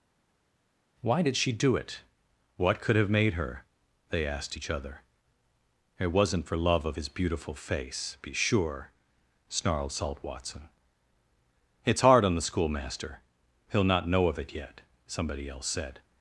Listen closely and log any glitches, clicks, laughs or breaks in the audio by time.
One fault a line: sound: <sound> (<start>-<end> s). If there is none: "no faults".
no faults